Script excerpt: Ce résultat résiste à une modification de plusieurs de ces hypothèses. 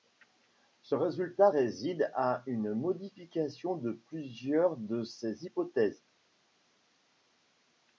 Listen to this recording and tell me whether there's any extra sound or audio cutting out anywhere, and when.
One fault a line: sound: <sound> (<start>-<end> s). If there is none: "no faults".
no faults